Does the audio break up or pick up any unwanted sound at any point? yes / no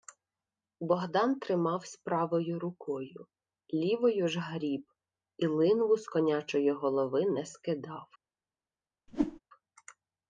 yes